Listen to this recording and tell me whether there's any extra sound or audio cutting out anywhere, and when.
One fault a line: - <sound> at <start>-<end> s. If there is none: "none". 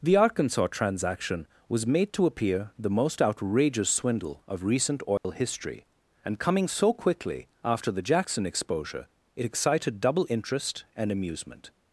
- dropout at 5.2-5.2 s